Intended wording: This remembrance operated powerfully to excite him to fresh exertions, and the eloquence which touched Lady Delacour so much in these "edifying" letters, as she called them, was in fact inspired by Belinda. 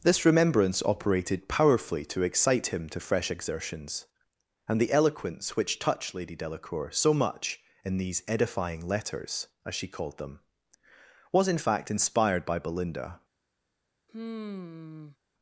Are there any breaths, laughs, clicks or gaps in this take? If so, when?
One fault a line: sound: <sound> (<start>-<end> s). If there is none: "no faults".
sound: sigh (14.1-15.2 s)